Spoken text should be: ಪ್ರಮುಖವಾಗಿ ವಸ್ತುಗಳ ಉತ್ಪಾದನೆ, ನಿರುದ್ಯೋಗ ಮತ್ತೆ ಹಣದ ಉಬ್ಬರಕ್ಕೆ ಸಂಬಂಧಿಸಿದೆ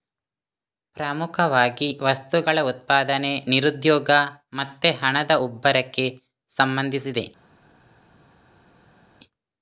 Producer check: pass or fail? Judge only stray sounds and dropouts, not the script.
pass